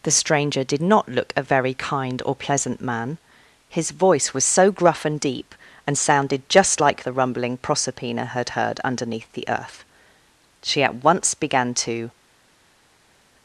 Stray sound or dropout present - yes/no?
no